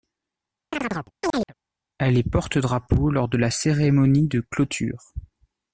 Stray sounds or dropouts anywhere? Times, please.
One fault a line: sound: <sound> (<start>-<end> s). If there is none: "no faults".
sound: chirp (0.7-1.5 s)